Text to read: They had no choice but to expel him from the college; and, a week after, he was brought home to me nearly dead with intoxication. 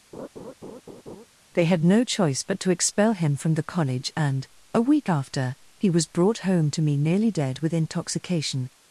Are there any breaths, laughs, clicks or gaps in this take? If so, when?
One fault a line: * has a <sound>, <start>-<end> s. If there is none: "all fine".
* has a laugh, 0.1-1.3 s